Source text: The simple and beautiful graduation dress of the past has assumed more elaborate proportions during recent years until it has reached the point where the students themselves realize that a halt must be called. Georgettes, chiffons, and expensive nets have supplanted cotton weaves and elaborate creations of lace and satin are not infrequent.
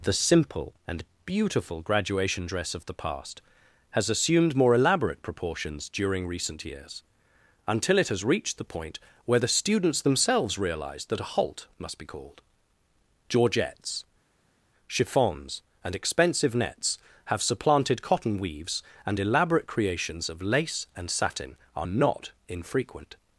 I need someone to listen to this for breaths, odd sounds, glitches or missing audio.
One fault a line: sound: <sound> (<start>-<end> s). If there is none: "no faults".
no faults